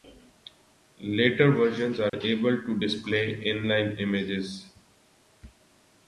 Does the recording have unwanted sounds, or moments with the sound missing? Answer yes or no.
yes